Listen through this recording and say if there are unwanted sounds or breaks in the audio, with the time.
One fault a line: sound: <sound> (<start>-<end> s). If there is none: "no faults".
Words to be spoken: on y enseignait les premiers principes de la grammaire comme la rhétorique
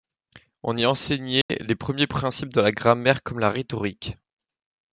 sound: dropout (1.4-1.5 s)